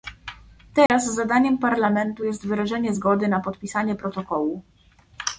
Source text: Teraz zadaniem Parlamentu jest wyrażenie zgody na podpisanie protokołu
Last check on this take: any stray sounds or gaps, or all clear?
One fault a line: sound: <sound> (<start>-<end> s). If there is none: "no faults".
sound: dropout (0.9-0.9 s)